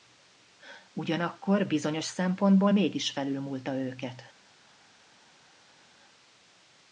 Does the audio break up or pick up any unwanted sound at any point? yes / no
no